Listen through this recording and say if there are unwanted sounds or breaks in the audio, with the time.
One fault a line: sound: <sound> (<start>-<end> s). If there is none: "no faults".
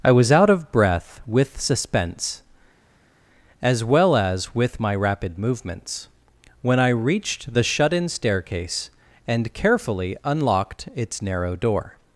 no faults